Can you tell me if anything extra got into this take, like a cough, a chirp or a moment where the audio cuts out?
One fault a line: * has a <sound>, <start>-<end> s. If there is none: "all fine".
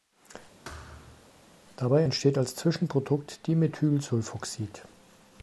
* has a thud, 0.6-1.3 s